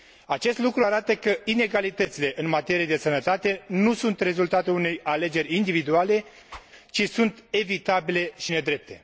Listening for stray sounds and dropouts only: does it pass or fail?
fail